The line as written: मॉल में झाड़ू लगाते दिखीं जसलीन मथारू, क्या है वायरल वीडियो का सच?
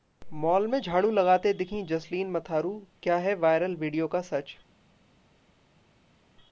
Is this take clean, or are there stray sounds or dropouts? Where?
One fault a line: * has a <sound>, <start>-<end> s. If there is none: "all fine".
all fine